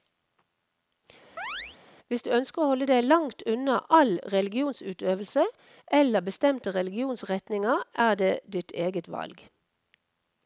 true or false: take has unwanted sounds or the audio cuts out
true